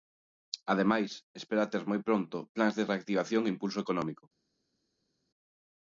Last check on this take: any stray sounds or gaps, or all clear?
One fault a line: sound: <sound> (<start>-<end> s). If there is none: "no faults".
no faults